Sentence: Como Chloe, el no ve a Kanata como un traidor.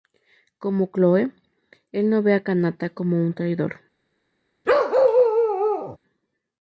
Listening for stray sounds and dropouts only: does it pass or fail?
fail